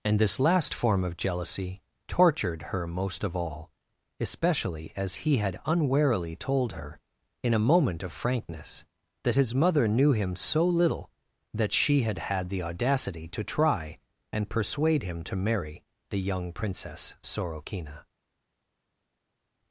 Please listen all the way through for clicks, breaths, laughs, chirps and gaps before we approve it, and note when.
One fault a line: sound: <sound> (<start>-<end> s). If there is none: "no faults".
no faults